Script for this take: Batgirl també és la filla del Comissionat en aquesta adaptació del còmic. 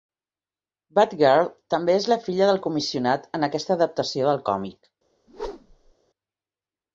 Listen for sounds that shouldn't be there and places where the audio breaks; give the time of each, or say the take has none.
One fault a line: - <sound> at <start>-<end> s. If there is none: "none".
- whoosh at 5.3-5.9 s